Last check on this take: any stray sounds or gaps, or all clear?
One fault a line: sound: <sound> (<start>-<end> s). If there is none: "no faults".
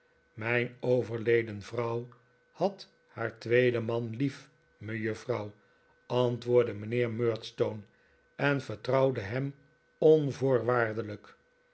no faults